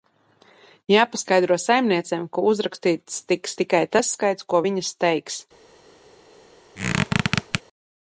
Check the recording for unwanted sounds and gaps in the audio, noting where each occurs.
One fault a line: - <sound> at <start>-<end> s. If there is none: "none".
- squeak at 6.8-7.6 s